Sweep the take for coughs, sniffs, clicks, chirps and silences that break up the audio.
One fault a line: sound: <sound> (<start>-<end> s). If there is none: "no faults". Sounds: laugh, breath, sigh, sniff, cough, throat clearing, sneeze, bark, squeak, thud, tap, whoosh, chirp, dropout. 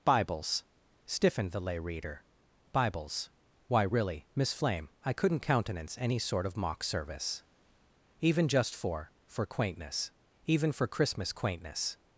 no faults